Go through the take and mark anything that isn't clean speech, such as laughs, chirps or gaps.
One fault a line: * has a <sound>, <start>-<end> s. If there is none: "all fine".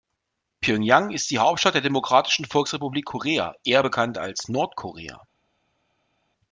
all fine